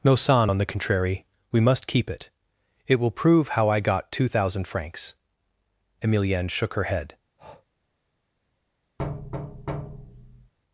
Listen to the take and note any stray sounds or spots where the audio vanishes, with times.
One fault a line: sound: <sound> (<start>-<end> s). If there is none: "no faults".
sound: breath (7.4-7.7 s)
sound: thud (9.0-10.5 s)